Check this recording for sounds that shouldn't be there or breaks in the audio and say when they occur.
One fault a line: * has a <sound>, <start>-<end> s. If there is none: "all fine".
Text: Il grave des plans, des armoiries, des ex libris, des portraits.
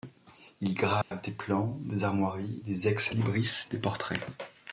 * has a dropout, 1.0-1.1 s